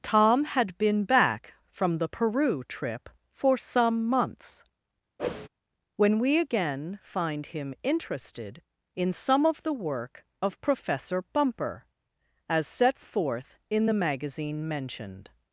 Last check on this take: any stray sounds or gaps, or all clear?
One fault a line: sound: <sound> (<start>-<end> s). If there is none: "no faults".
sound: whoosh (5.2-5.5 s)